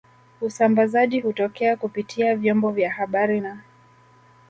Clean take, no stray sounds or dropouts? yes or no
yes